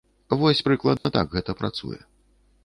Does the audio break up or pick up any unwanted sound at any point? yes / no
yes